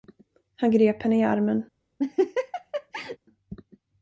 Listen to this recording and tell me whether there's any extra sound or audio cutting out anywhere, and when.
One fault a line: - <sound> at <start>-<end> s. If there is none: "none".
- laugh at 2.0-3.2 s